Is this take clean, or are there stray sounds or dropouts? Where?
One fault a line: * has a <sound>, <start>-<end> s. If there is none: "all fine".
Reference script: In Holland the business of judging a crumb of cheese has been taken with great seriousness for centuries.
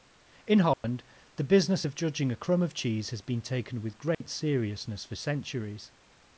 * has a dropout, 0.7-0.8 s
* has a dropout, 4.1-4.2 s